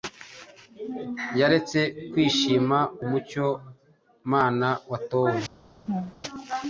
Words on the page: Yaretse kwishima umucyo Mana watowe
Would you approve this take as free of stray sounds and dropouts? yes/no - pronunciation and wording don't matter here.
no